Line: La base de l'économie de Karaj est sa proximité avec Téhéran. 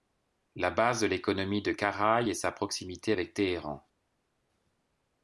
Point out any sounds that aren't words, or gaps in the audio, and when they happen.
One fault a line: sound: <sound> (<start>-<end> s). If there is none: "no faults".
no faults